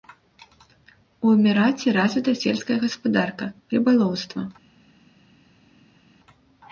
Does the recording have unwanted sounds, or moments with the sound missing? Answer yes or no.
no